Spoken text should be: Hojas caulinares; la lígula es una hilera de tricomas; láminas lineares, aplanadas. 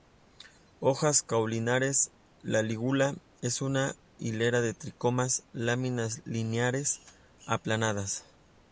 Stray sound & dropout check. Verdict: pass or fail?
pass